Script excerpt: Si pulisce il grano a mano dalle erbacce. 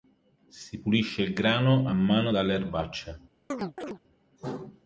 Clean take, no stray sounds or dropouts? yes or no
no